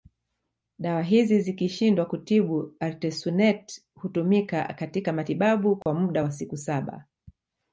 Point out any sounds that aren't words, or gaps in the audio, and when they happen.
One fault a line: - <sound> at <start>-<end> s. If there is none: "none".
- dropout at 5.8-5.9 s